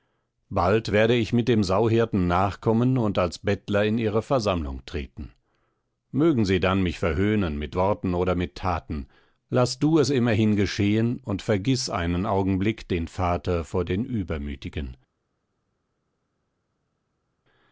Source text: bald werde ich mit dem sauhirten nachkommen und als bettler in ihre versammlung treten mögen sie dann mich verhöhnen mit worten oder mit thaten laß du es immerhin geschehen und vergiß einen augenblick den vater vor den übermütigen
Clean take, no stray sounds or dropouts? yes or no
yes